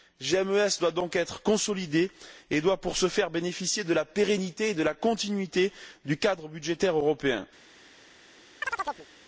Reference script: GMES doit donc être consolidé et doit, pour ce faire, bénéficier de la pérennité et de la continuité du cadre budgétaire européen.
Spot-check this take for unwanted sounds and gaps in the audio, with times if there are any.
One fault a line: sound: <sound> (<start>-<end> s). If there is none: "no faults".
sound: chirp (8.6-9.1 s)